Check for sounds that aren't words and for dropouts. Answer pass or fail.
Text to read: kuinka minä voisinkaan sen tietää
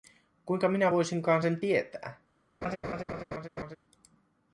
fail